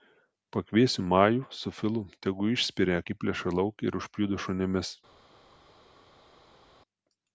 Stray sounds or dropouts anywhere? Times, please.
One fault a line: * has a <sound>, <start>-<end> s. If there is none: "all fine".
all fine